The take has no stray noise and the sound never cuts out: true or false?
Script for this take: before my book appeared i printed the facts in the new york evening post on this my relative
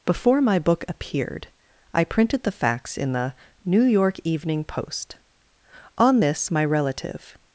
true